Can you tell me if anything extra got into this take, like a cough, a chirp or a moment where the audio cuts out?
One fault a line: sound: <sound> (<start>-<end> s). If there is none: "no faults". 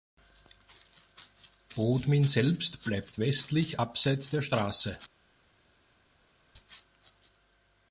no faults